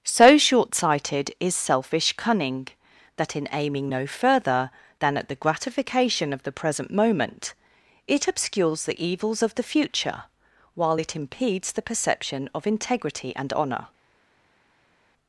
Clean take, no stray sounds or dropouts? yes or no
yes